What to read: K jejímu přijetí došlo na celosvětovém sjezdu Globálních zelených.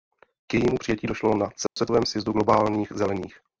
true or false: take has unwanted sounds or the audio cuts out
true